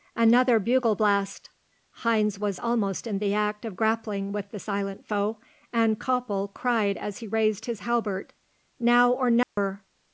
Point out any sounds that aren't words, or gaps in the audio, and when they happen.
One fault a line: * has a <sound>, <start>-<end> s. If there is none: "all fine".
* has a dropout, 9.4-9.6 s